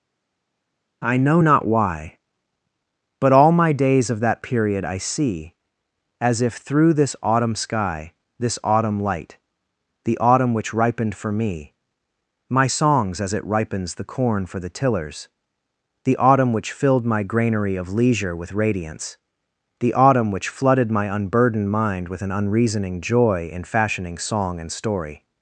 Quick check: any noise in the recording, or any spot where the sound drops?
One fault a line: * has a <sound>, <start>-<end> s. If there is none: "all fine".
all fine